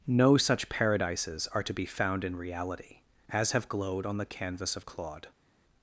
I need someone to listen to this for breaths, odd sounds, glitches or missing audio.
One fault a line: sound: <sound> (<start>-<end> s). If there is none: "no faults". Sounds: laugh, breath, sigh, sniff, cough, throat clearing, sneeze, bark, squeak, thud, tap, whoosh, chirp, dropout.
no faults